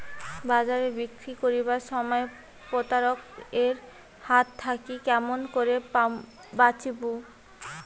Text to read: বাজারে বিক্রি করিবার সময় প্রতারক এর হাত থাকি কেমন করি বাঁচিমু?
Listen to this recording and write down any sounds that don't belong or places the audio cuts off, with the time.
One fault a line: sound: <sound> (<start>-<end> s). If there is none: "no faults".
no faults